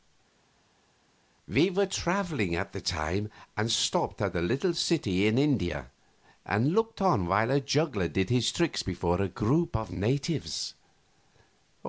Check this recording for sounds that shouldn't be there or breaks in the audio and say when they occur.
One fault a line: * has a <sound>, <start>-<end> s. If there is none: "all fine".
all fine